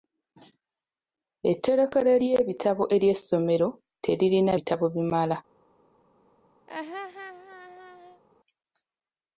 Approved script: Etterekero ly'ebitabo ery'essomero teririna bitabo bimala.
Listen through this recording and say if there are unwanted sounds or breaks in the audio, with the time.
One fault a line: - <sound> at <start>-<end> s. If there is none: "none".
- laugh at 6.7-8.2 s